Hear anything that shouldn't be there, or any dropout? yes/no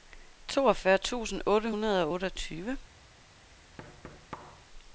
yes